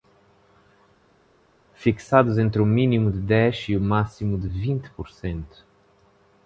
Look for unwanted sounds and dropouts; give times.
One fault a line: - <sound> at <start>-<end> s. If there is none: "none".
none